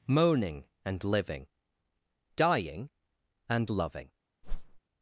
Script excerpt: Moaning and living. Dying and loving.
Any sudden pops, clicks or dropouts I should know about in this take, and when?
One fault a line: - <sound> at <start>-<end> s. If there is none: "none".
- whoosh at 4.4-4.8 s